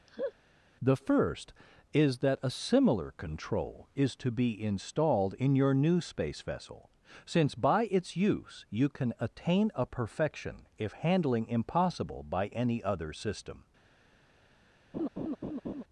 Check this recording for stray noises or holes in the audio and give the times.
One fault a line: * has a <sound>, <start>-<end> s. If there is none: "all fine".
* has a laugh, 0.1-0.3 s
* has a laugh, 14.9-15.8 s